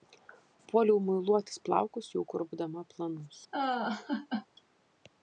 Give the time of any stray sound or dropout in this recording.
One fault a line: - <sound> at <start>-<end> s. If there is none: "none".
- laugh at 3.5-4.5 s